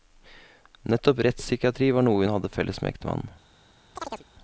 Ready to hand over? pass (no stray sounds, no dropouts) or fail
fail